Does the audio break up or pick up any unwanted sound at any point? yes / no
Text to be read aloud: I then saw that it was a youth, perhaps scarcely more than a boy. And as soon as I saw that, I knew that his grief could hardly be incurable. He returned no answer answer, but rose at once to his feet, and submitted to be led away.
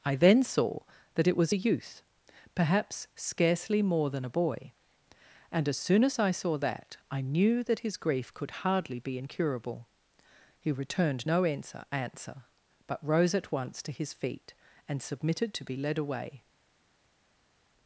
no